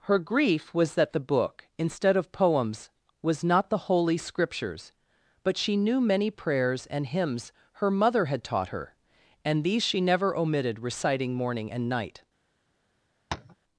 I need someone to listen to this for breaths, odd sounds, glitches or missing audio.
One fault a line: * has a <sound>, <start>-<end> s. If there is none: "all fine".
* has a tap, 13.3-13.6 s